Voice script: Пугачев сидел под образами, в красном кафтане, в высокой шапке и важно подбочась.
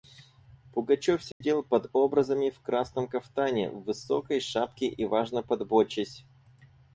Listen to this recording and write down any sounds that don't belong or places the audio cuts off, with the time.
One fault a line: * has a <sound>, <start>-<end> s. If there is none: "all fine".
* has a dropout, 1.3-1.4 s